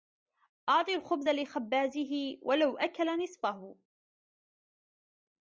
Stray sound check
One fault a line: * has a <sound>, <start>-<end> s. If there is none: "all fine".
all fine